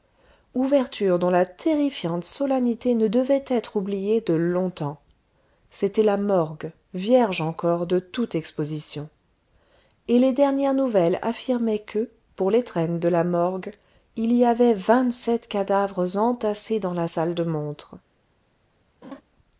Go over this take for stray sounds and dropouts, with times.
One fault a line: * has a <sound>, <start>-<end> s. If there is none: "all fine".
* has a laugh, 19.0-19.2 s